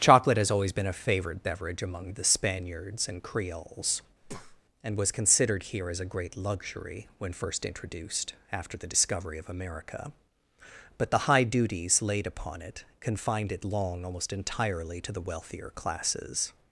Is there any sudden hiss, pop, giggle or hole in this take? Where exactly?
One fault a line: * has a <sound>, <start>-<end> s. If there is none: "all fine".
* has a breath, 4.2-4.6 s